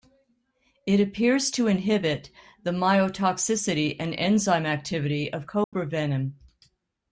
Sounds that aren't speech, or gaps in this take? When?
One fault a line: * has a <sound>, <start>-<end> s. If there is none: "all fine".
* has a dropout, 5.6-5.7 s